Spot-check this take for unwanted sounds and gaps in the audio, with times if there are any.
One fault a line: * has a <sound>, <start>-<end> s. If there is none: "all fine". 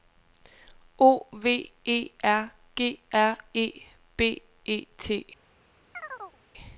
* has a chirp, 5.9-6.4 s